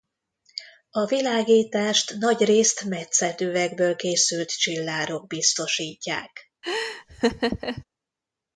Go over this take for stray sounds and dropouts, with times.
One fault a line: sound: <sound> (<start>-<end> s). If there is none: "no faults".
sound: laugh (6.6-7.8 s)